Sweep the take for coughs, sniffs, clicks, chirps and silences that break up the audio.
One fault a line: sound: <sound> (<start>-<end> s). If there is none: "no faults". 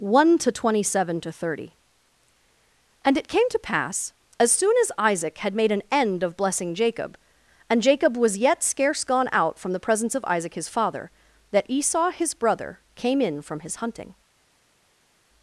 no faults